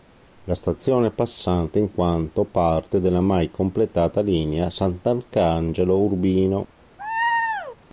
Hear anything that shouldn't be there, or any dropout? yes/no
yes